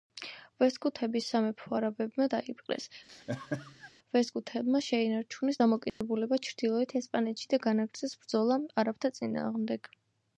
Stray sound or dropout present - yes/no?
yes